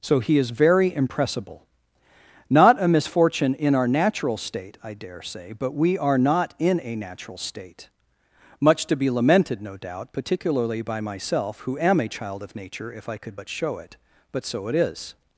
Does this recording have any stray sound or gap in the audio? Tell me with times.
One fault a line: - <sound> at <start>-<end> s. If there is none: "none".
none